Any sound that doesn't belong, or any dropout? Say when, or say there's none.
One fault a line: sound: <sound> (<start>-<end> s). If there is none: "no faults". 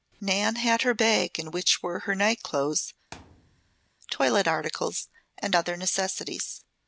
sound: thud (3.1-3.9 s)